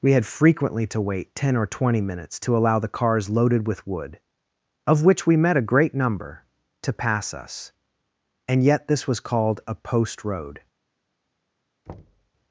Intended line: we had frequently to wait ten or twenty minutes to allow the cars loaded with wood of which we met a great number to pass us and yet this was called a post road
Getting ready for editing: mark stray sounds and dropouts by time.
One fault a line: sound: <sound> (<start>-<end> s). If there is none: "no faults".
sound: thud (11.9-12.3 s)